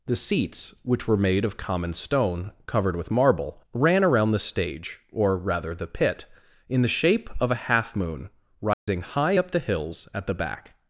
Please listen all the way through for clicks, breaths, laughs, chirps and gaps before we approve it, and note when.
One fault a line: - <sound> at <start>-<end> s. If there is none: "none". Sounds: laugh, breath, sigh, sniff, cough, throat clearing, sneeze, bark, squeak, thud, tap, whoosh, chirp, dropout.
- dropout at 8.7-8.9 s